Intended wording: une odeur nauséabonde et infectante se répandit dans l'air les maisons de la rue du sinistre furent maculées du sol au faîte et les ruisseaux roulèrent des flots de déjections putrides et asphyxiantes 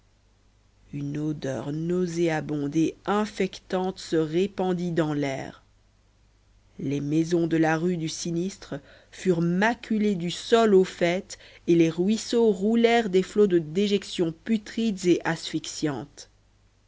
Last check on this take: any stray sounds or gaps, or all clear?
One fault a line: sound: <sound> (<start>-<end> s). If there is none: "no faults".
no faults